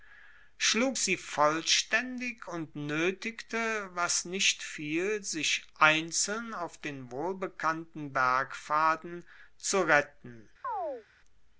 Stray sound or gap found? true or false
true